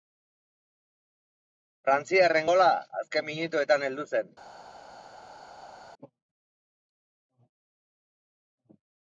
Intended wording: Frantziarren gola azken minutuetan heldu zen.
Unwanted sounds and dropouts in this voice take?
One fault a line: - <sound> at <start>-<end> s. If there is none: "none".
none